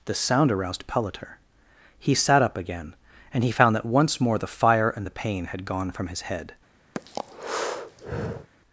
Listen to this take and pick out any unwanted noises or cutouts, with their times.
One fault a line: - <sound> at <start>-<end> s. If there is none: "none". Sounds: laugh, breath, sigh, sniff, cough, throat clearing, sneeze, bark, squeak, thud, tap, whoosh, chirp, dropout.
- breath at 6.9-8.5 s